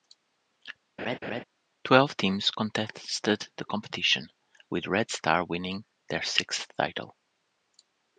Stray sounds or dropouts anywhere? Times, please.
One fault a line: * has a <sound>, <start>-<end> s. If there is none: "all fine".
* has a laugh, 1.0-1.4 s